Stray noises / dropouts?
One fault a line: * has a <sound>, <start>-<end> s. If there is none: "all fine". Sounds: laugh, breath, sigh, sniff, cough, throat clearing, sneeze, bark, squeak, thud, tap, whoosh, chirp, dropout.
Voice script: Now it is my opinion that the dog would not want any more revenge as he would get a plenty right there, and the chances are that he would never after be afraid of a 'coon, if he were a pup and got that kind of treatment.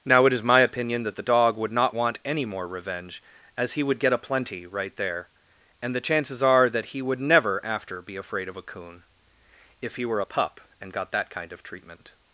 all fine